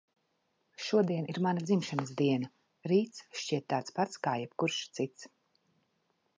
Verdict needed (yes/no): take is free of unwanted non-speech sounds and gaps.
yes